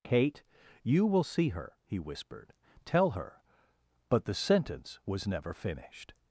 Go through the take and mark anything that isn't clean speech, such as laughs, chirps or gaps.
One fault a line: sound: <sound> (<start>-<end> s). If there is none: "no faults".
no faults